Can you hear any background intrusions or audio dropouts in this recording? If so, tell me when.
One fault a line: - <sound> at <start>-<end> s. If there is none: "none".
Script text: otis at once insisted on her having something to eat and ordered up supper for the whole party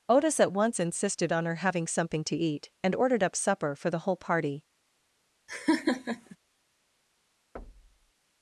- laugh at 5.5-6.4 s
- thud at 7.6-8.1 s